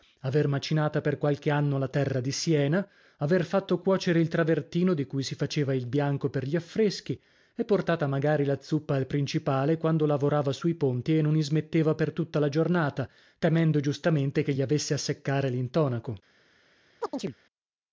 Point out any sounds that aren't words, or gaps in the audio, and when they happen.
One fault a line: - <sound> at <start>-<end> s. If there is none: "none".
- chirp at 17.0-17.3 s